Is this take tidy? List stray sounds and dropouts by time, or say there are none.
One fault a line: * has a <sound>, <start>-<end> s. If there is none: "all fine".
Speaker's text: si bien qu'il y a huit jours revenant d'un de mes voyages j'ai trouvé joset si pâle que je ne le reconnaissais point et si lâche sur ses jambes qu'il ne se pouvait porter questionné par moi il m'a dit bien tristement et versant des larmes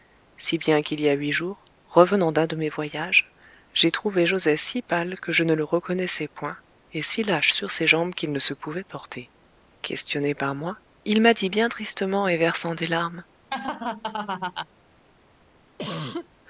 * has a laugh, 13.5-14.7 s
* has a cough, 15.8-16.3 s